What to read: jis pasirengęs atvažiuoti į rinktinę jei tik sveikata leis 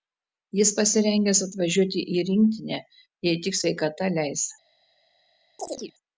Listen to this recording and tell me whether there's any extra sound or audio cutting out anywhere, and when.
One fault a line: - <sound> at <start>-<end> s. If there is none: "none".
- chirp at 5.6-5.9 s